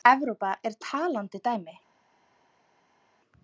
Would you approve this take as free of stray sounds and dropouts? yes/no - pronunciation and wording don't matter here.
yes